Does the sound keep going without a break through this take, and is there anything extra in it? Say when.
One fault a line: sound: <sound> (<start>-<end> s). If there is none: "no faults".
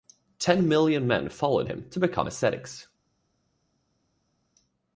no faults